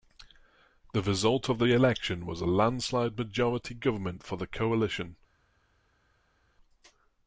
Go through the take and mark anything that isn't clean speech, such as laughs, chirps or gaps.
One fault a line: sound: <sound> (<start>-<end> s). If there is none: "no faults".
no faults